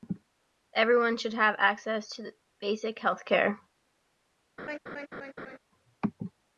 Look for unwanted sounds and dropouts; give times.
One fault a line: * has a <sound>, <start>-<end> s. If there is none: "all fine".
* has a laugh, 4.6-5.6 s